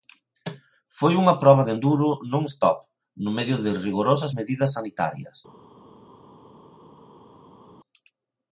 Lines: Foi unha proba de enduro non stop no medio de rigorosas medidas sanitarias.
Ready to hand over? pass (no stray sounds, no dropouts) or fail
pass